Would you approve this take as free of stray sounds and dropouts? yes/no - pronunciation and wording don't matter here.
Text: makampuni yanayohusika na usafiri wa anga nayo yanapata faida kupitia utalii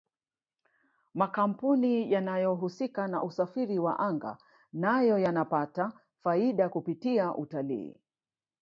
yes